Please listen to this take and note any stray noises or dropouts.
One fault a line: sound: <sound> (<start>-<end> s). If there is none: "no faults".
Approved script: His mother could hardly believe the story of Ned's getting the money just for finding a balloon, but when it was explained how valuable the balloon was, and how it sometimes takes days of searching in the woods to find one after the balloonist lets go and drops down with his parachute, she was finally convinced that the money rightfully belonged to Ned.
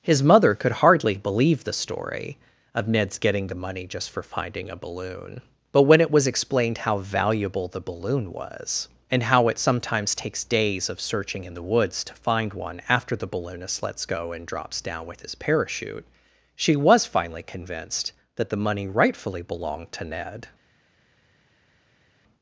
no faults